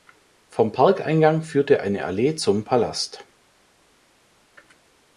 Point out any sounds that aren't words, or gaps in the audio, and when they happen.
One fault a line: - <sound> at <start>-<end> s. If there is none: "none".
none